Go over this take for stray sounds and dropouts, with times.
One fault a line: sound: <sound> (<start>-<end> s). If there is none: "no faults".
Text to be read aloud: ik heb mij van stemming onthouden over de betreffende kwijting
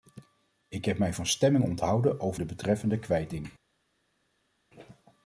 no faults